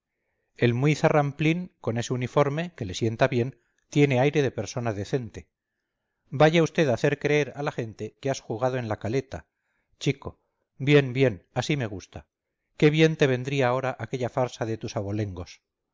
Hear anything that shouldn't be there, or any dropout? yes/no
no